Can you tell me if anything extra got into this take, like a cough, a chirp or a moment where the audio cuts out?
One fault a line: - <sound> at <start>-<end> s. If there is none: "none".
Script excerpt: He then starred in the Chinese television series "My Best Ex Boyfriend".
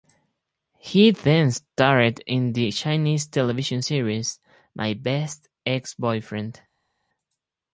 none